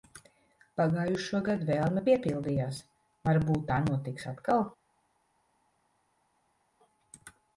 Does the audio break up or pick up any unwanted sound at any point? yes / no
no